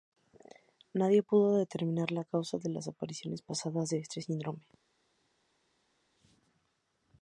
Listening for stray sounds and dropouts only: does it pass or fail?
pass